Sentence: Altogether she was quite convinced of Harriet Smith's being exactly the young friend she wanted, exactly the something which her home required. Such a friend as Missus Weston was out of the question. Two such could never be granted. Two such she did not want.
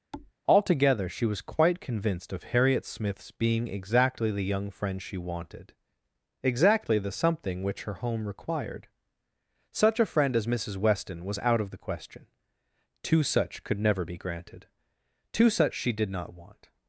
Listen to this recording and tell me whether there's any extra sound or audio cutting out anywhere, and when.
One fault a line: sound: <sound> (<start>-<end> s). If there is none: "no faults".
sound: thud (0.1-0.3 s)